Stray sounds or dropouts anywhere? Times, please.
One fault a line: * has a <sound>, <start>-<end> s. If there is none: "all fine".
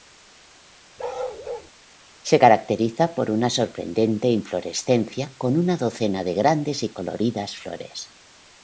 * has a bark, 1.0-1.7 s